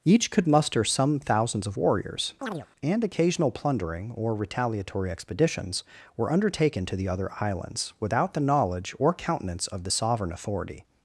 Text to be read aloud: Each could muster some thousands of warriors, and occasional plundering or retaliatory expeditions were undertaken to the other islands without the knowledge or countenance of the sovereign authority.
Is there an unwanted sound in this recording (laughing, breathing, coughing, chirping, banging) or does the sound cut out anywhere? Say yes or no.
yes